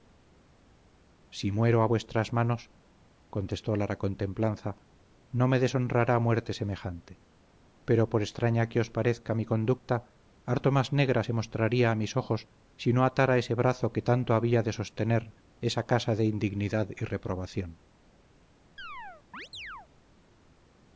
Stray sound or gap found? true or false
true